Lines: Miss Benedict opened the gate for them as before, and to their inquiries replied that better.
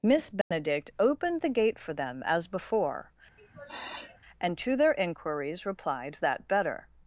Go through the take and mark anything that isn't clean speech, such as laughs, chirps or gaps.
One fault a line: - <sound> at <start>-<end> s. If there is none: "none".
- dropout at 0.4-0.5 s
- sniff at 3.4-4.2 s